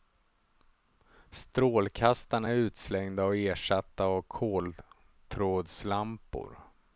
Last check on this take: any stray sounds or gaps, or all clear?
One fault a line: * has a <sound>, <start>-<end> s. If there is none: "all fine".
all fine